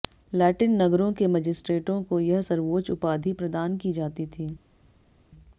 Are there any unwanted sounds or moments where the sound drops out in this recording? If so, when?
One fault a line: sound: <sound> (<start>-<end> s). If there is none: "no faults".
no faults